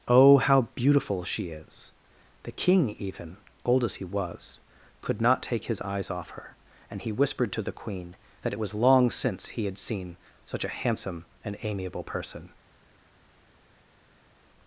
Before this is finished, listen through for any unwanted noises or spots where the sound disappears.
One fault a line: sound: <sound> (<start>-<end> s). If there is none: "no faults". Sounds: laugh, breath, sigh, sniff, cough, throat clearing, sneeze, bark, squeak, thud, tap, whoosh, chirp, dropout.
no faults